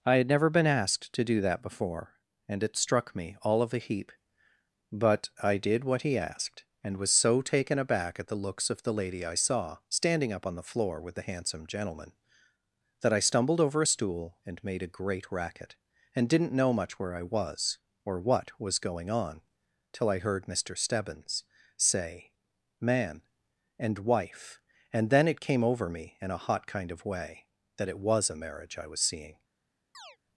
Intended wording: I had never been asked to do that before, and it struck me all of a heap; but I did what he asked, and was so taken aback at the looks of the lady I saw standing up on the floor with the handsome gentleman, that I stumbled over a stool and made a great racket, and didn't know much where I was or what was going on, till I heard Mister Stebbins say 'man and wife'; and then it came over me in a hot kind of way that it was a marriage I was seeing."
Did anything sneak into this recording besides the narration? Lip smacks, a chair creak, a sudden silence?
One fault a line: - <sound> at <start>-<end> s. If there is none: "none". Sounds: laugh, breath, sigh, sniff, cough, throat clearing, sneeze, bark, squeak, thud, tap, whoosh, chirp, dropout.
- chirp at 29.9-30.2 s